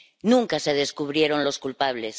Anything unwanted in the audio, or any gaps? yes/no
no